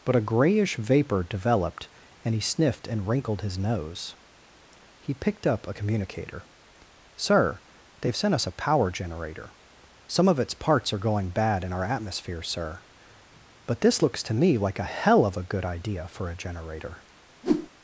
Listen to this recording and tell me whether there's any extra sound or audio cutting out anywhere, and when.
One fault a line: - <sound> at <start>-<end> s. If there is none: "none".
- whoosh at 17.4-17.7 s